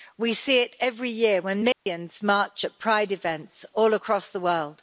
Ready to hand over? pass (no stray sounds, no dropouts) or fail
fail